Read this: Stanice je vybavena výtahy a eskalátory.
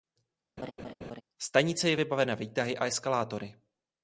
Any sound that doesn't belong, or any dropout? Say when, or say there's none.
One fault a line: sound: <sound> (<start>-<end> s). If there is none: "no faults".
sound: laugh (0.6-1.2 s)